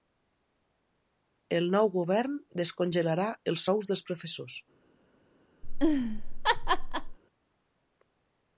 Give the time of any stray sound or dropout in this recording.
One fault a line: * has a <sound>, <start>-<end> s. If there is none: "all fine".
* has a laugh, 5.6-7.2 s